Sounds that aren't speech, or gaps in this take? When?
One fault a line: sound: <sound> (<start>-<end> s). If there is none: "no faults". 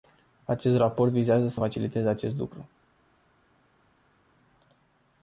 no faults